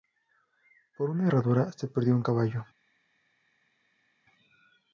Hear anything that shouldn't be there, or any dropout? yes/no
no